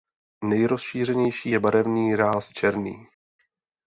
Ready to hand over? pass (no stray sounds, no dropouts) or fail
pass